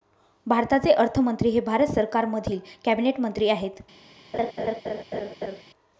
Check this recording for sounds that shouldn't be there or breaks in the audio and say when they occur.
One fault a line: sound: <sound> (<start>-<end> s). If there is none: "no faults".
sound: laugh (4.3-5.6 s)